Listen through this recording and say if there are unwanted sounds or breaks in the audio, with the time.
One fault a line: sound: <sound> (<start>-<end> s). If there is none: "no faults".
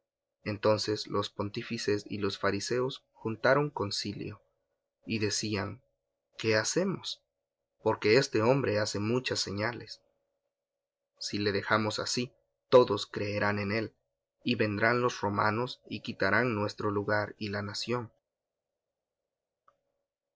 no faults